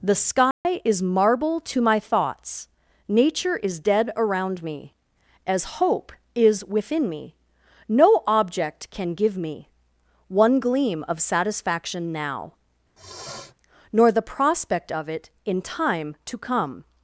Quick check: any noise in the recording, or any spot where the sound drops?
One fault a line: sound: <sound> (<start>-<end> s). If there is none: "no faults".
sound: dropout (0.5-0.7 s)
sound: sniff (13.0-13.5 s)